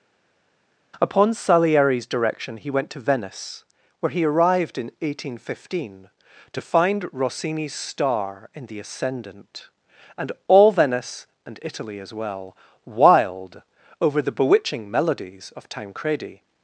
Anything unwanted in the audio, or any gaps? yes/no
no